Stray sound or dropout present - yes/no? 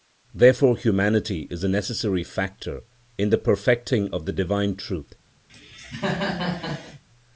yes